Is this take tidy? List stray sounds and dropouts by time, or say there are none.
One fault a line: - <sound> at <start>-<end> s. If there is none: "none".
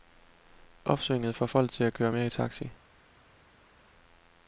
none